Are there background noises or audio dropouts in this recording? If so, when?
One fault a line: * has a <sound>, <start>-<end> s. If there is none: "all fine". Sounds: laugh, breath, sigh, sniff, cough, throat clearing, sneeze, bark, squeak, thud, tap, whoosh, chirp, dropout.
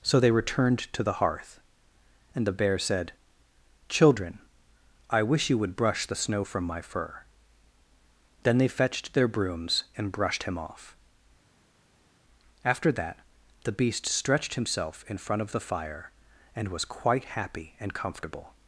all fine